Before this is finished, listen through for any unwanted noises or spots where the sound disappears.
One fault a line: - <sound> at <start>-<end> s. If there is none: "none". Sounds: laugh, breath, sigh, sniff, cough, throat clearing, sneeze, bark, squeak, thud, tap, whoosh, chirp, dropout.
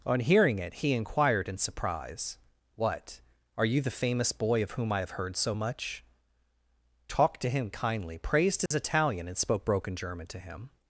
- dropout at 8.7-8.7 s